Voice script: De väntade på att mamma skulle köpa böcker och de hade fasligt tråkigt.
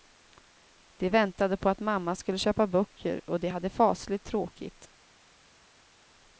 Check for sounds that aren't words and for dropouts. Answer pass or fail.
pass